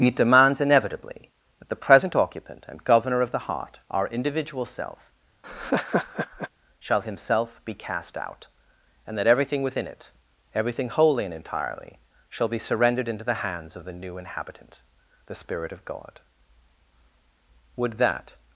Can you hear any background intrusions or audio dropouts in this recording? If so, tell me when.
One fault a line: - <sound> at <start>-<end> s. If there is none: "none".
- laugh at 5.4-6.5 s